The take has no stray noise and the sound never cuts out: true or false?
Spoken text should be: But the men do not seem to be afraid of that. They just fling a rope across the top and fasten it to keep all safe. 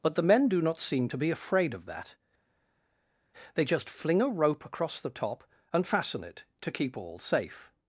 true